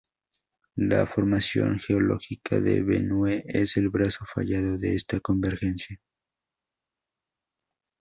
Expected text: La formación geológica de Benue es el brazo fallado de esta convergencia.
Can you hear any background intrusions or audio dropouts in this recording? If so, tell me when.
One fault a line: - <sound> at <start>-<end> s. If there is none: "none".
none